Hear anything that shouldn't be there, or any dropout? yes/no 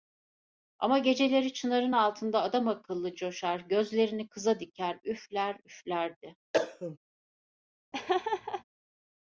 yes